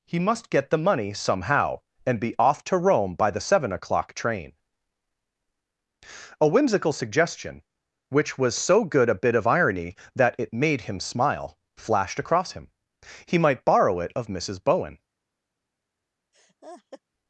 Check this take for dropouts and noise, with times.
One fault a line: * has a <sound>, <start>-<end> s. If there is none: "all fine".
* has a laugh, 16.3-17.0 s